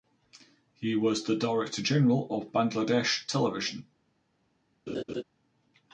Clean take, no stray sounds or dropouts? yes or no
no